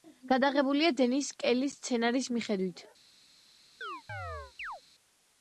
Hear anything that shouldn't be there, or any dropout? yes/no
yes